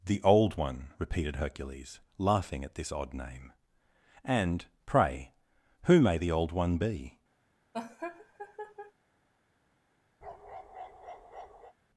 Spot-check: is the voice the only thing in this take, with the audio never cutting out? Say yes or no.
no